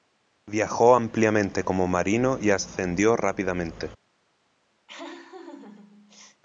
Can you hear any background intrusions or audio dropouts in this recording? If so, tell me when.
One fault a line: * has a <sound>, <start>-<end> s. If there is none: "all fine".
* has a laugh, 4.9-6.4 s